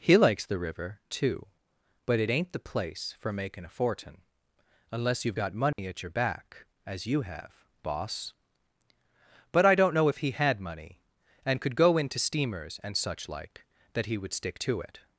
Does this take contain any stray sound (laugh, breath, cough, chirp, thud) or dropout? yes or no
yes